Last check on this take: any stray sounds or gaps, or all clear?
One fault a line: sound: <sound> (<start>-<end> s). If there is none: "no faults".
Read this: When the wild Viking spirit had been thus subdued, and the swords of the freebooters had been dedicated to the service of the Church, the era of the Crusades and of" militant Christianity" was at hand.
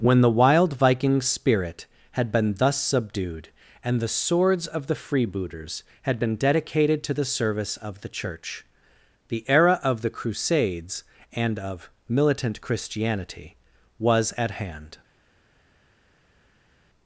no faults